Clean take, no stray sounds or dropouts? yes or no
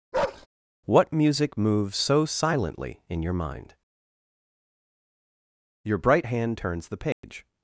no